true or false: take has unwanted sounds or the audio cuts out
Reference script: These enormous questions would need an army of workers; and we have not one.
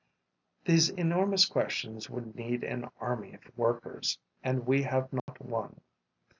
true